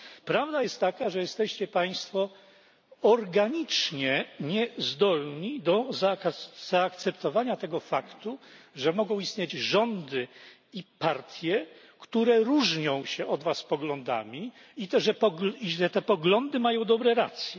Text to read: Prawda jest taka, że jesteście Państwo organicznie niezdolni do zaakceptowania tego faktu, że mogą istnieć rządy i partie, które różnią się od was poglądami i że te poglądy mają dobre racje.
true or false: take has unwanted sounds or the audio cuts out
false